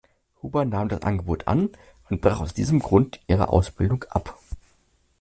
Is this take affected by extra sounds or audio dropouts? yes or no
no